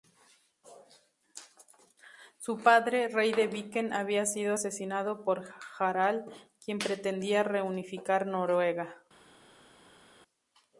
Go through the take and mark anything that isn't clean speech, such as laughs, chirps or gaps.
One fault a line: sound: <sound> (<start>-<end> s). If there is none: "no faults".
no faults